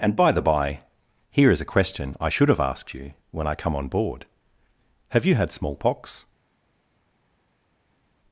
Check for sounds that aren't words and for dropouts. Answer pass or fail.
pass